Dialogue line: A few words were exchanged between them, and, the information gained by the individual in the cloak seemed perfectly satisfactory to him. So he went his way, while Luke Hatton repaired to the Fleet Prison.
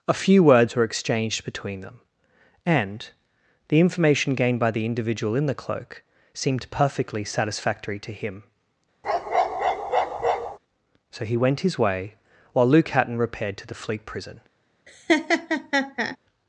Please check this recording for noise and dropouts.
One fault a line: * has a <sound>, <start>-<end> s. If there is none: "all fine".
* has a bark, 9.0-10.6 s
* has a laugh, 14.9-16.2 s